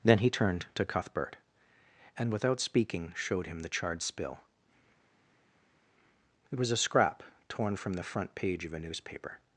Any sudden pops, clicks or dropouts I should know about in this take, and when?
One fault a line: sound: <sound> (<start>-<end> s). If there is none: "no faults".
no faults